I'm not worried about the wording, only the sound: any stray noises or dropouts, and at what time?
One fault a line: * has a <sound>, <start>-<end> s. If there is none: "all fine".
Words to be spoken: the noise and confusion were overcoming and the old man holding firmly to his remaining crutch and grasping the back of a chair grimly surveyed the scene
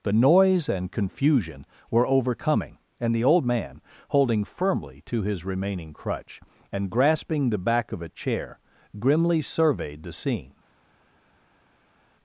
all fine